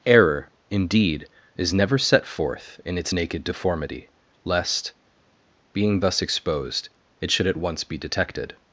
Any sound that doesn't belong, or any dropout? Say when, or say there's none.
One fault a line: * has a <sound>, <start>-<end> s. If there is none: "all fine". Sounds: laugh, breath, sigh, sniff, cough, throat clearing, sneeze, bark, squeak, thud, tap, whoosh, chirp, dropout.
all fine